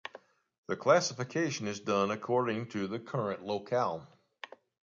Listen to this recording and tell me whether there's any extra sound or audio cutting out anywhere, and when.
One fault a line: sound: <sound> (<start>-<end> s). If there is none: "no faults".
no faults